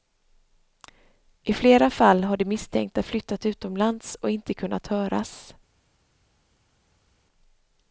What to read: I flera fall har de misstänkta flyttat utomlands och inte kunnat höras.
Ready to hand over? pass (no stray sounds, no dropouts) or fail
pass